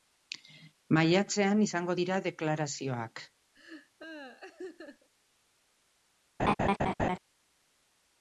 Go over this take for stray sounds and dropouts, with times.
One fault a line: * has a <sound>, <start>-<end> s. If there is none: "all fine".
* has a laugh, 3.5-5.1 s
* has a laugh, 6.4-7.2 s